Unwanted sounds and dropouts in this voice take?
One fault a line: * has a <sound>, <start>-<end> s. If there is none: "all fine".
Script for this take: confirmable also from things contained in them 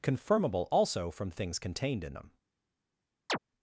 * has a chirp, 3.3-3.4 s